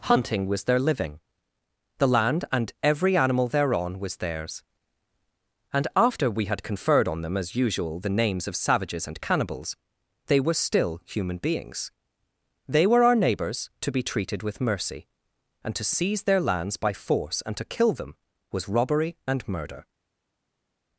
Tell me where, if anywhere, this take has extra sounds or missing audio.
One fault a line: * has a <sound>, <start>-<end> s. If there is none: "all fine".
all fine